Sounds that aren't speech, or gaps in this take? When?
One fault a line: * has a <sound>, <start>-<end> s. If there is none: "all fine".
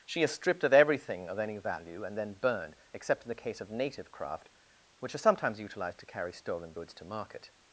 all fine